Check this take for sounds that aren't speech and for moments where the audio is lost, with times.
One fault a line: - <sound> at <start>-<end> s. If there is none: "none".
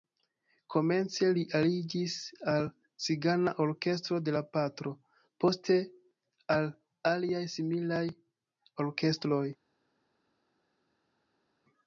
none